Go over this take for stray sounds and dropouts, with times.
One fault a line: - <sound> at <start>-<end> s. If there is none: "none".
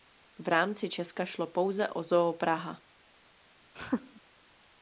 - laugh at 3.8-4.2 s